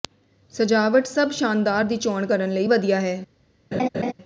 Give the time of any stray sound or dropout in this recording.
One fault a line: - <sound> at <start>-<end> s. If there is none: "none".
- laugh at 3.7-4.1 s